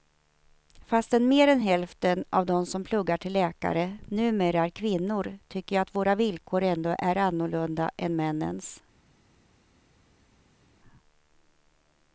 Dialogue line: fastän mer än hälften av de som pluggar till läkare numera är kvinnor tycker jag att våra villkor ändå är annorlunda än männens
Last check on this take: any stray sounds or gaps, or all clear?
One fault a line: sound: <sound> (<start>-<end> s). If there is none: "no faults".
no faults